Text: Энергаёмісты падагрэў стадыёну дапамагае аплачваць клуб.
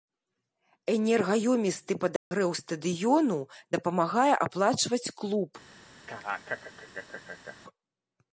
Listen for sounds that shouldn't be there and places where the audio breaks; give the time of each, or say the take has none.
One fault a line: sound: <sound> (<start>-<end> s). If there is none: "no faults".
sound: dropout (2.2-2.3 s)
sound: laugh (6.1-7.6 s)